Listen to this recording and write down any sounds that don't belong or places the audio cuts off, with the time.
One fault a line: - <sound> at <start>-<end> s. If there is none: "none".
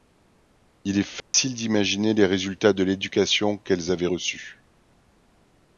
- dropout at 1.2-1.3 s